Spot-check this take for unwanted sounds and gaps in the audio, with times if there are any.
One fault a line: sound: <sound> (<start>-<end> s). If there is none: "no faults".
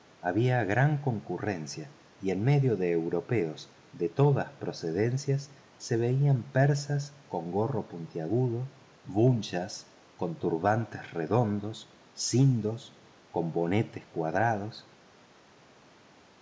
no faults